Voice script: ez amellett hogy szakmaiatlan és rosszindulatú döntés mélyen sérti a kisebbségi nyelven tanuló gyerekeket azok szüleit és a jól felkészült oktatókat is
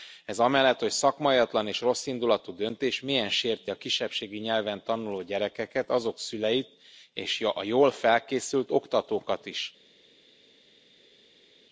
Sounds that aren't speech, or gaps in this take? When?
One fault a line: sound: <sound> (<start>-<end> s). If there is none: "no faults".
no faults